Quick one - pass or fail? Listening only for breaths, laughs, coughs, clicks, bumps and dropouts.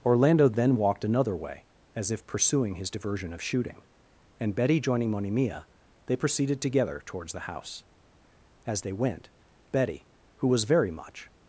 pass